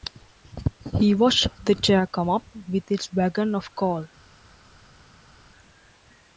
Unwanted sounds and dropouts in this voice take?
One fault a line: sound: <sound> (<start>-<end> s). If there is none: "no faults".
no faults